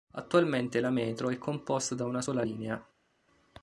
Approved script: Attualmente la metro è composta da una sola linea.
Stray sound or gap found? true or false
false